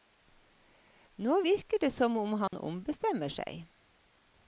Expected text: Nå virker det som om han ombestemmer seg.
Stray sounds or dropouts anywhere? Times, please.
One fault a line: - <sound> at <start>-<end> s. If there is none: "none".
- dropout at 2.5-2.5 s